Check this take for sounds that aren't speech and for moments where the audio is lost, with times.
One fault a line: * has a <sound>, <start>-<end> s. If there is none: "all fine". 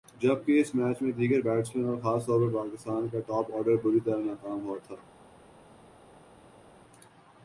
all fine